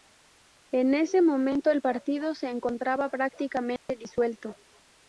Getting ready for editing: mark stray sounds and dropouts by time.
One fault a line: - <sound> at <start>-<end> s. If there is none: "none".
- dropout at 3.8-3.9 s